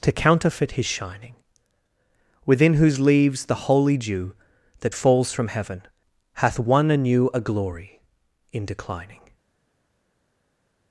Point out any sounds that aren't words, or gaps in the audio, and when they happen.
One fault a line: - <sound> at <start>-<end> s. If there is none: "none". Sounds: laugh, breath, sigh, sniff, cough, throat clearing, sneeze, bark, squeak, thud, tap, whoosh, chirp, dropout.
none